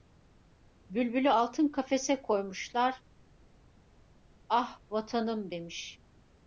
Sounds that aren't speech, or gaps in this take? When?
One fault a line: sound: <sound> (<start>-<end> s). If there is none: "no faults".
no faults